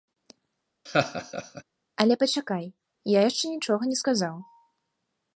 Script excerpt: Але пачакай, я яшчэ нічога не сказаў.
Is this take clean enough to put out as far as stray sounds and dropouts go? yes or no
no